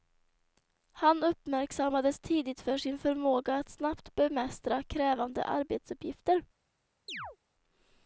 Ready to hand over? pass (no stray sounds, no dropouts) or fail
fail